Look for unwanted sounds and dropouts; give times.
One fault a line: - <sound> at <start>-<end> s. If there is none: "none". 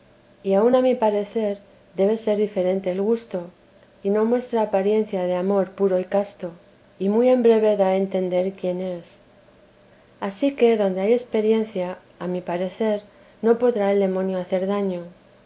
none